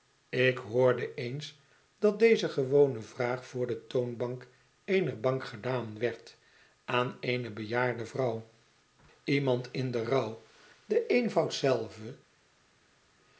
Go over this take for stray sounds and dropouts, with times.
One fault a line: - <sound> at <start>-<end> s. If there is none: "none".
none